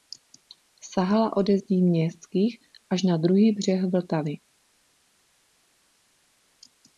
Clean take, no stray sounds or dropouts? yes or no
yes